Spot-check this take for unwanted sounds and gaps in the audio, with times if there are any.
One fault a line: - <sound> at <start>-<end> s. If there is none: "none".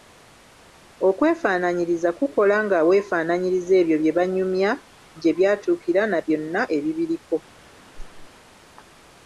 - whoosh at 7.9-8.3 s